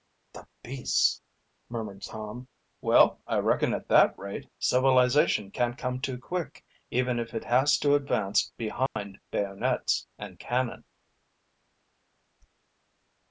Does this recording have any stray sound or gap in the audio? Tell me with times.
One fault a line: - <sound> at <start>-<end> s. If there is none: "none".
- dropout at 8.9-9.0 s